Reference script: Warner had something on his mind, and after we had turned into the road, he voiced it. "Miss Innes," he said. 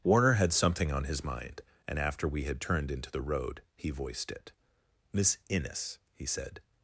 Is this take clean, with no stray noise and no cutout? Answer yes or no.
yes